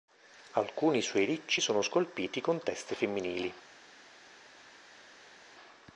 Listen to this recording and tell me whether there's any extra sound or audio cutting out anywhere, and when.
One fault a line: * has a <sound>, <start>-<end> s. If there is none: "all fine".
all fine